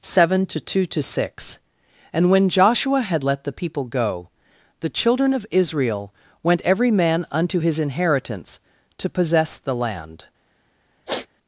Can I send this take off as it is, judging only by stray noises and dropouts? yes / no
no